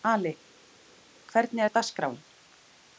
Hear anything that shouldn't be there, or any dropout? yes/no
no